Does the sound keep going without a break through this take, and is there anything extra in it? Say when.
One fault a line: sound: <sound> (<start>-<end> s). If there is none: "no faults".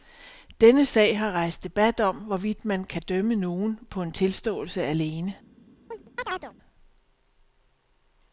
sound: chirp (5.9-6.5 s)